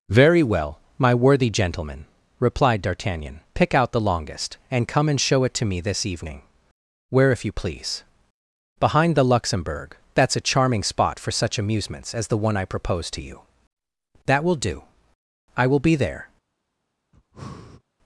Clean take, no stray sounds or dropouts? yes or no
no